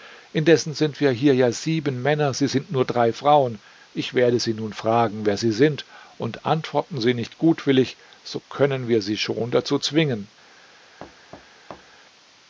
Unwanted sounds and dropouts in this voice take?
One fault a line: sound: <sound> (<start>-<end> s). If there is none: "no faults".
sound: thud (11.0-12.0 s)